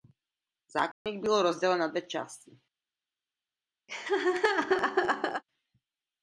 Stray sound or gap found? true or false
true